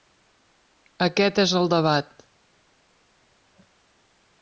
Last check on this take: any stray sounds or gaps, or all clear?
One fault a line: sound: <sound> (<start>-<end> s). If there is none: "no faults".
no faults